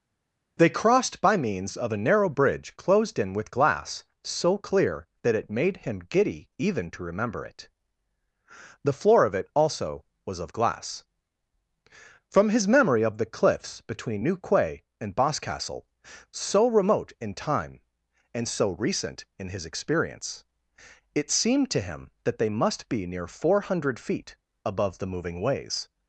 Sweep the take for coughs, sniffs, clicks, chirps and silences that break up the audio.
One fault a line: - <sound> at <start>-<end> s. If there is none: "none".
none